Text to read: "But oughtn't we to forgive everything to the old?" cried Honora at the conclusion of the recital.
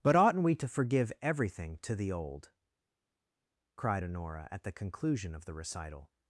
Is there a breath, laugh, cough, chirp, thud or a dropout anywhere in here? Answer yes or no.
no